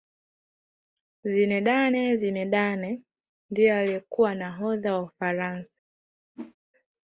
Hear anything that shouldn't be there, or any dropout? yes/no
yes